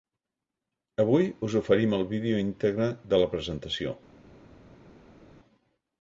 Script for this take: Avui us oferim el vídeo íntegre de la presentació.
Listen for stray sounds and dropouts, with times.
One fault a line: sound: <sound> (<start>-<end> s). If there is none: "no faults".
no faults